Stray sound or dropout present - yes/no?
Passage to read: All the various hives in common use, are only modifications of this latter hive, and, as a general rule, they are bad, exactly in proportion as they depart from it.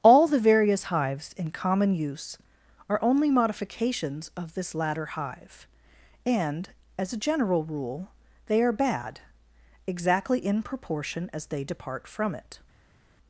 no